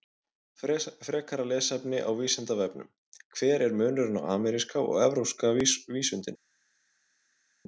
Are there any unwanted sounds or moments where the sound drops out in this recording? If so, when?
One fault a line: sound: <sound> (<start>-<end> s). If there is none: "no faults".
no faults